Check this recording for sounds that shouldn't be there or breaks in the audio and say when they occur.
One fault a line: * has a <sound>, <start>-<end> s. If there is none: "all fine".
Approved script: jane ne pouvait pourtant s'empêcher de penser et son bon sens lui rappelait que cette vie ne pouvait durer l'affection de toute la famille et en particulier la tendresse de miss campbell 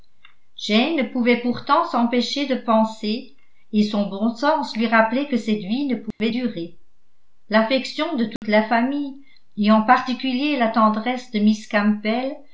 * has a dropout, 6.1-6.2 s
* has a dropout, 8.4-8.4 s